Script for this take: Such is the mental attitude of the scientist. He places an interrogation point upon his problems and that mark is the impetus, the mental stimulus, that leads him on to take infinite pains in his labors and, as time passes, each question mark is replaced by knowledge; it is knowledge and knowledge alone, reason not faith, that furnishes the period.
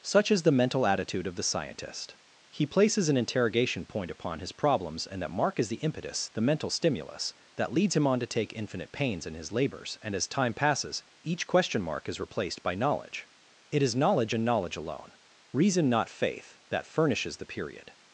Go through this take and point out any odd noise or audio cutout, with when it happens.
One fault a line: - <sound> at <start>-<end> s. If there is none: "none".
none